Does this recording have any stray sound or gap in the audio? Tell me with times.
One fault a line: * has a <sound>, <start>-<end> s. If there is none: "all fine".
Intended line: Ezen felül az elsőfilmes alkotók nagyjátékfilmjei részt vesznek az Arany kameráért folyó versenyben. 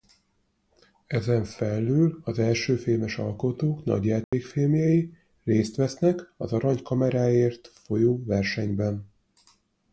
* has a dropout, 4.2-4.3 s